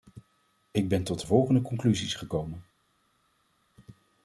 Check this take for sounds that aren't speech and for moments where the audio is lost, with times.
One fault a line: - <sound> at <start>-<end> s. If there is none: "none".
none